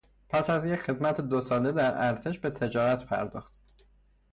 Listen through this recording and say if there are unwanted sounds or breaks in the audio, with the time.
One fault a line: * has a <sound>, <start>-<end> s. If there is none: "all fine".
all fine